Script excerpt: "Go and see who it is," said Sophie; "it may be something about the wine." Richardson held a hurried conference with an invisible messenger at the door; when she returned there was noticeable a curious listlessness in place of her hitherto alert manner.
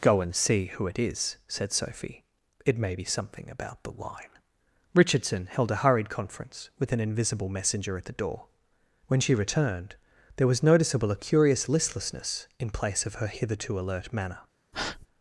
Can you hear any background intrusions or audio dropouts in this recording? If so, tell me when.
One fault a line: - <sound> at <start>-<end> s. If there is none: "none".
- breath at 14.7-15.1 s